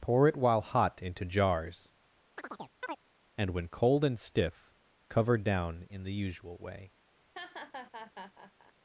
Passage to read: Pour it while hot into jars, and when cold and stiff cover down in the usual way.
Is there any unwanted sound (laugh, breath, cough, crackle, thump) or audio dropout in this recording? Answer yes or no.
yes